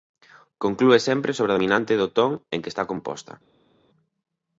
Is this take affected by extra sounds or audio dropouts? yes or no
no